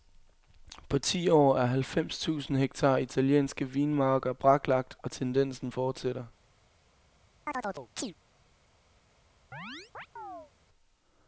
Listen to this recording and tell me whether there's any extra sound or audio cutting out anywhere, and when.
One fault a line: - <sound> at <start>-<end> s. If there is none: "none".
- chirp at 7.5-8.1 s
- chirp at 9.5-10.5 s